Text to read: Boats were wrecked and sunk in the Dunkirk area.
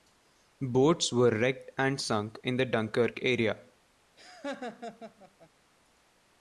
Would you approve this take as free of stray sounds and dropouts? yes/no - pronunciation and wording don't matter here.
no